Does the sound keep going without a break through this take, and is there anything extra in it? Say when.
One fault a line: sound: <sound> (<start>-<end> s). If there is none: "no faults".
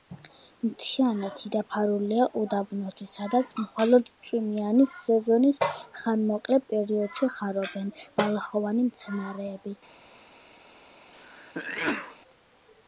sound: sneeze (11.1-12.2 s)